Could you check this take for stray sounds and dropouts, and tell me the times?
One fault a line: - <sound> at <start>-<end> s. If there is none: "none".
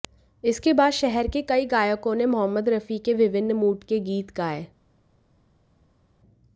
none